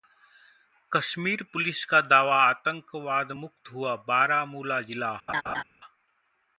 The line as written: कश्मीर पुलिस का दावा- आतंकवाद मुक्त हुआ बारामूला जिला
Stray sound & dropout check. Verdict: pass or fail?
fail